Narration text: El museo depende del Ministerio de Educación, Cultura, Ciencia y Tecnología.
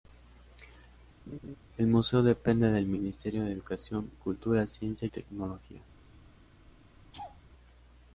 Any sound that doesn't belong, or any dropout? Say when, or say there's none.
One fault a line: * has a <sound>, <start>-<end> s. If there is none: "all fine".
* has a laugh, 1.3-1.6 s
* has a laugh, 7.1-7.4 s